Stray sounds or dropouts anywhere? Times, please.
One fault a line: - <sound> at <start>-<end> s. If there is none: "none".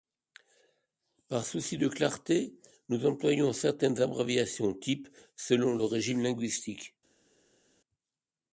none